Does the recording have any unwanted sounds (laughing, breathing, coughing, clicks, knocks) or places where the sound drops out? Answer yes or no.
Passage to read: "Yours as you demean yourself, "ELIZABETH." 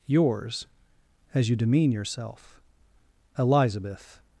no